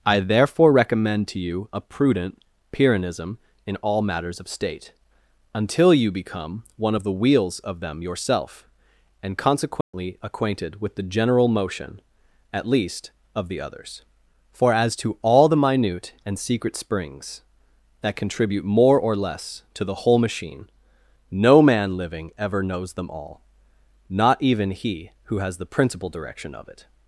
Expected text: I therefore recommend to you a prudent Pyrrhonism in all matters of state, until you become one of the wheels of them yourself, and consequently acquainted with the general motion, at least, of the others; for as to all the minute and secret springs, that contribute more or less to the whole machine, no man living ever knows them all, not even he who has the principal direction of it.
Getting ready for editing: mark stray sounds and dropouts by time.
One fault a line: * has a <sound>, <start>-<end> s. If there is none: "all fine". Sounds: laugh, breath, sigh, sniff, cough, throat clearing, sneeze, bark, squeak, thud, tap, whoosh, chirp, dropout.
* has a dropout, 9.8-9.9 s